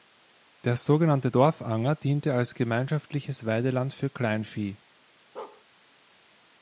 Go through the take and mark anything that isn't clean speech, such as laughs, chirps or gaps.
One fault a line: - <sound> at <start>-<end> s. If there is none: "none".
- bark at 5.4-5.6 s